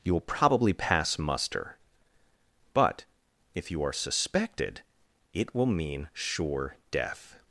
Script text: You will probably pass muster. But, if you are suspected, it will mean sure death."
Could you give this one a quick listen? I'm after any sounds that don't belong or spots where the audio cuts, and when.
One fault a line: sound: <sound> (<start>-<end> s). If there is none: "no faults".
no faults